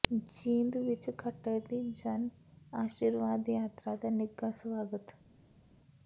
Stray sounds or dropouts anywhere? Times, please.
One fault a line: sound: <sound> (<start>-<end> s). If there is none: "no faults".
no faults